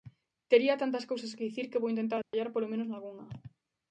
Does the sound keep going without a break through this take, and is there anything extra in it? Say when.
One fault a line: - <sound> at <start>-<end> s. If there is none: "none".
- dropout at 2.2-2.3 s